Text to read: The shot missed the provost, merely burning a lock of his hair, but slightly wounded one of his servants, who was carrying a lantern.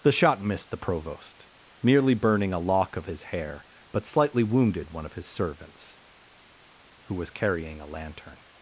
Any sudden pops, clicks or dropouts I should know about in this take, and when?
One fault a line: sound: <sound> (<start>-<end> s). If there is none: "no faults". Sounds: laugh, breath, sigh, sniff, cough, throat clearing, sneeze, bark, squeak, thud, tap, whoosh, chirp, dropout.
no faults